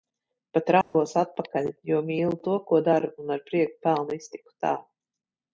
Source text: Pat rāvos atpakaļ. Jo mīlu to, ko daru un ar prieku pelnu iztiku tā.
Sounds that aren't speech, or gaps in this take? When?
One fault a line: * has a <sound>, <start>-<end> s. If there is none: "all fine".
* has a dropout, 0.8-0.9 s